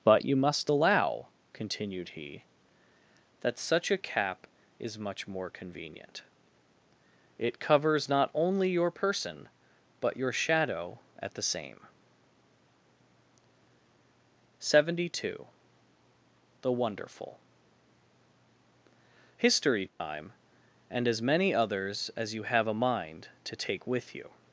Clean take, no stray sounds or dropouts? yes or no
no